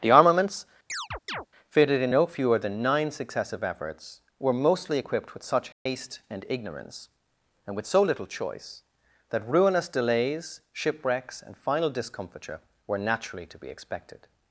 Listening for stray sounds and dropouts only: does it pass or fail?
fail